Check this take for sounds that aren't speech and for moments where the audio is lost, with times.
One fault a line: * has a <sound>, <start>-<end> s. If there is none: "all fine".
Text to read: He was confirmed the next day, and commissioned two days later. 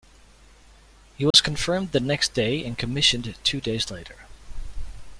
* has a dropout, 1.3-1.3 s